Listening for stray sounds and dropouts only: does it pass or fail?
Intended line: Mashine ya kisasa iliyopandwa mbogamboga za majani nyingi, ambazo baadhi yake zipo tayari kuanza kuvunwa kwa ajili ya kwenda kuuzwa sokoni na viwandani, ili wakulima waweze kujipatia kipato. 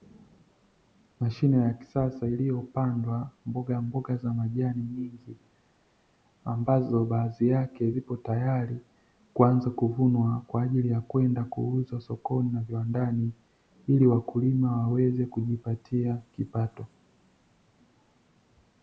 pass